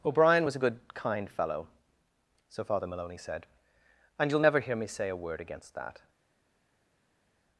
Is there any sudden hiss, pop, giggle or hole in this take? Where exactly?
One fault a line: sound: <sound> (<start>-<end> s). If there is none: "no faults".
no faults